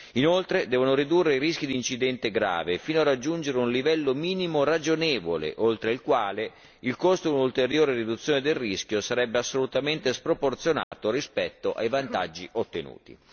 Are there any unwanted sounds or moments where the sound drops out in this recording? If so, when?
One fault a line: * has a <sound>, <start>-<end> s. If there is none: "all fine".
* has a dropout, 10.8-10.9 s